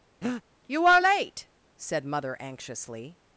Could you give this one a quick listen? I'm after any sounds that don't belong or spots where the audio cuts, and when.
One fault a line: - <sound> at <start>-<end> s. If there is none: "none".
- breath at 0.2-0.4 s